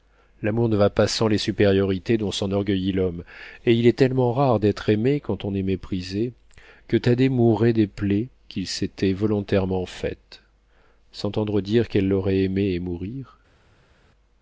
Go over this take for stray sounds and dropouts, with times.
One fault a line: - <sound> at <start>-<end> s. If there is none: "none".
none